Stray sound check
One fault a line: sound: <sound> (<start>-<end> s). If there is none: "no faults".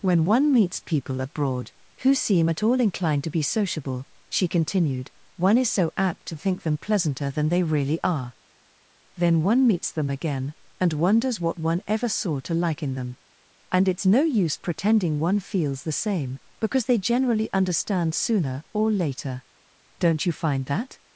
no faults